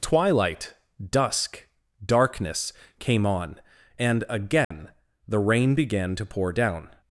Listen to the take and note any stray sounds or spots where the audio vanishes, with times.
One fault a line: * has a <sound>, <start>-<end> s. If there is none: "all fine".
* has a dropout, 4.6-4.7 s